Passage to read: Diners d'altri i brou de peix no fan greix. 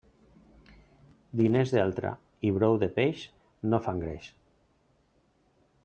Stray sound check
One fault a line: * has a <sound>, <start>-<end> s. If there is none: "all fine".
all fine